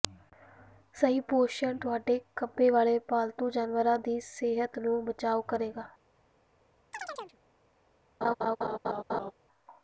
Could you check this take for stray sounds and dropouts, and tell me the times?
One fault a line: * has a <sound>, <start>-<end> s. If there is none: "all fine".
* has a chirp, 6.9-7.4 s
* has a laugh, 8.2-9.3 s